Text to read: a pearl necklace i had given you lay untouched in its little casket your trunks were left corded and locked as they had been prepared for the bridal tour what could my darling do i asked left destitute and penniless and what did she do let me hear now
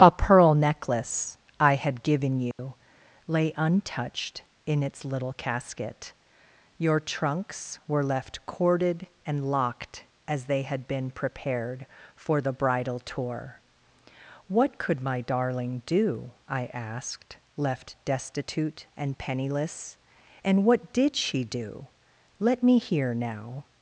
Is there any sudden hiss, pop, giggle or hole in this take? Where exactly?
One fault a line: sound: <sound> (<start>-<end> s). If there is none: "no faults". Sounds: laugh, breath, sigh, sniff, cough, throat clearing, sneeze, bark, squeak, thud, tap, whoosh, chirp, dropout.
sound: dropout (2.5-2.6 s)